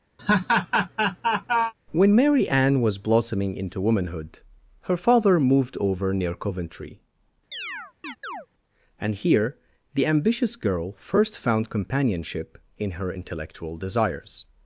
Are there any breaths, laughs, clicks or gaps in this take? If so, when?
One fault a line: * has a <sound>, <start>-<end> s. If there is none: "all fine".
* has a laugh, 0.2-1.7 s
* has a chirp, 7.5-8.5 s